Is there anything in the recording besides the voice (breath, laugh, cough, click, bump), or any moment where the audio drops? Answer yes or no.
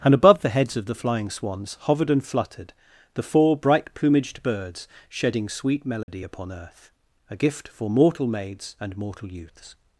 yes